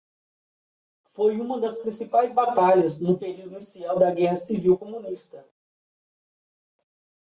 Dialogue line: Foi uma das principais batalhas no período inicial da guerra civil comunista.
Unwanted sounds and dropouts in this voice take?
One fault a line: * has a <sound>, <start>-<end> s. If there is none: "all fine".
all fine